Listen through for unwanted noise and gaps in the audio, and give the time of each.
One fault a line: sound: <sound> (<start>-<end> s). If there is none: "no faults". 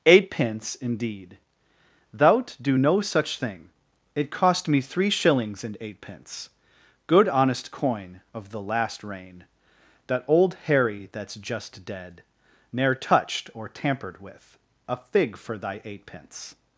no faults